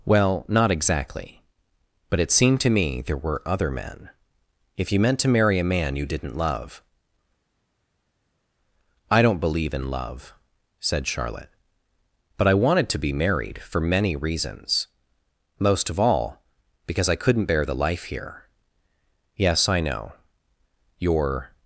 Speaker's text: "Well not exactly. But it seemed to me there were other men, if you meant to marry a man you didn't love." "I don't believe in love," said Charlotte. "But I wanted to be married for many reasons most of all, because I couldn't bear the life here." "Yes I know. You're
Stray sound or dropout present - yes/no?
no